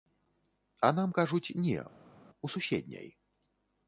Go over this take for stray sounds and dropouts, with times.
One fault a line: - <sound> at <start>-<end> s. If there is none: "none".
none